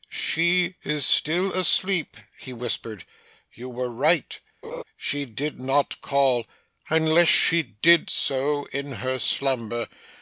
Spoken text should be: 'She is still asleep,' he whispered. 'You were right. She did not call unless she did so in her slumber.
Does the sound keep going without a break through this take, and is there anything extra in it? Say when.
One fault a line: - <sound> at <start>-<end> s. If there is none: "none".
- laugh at 4.6-4.8 s